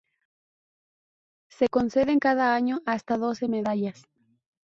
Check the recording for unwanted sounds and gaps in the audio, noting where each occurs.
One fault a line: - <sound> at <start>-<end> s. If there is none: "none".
none